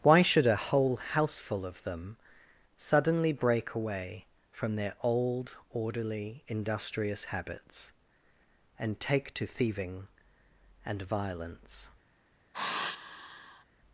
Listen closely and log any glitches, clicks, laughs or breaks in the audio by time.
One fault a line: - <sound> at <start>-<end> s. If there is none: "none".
- sigh at 12.5-13.6 s